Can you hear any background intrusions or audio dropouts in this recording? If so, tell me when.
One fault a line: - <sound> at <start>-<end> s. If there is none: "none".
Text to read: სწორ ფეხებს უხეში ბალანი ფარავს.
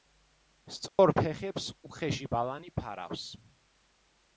- dropout at 0.9-1.0 s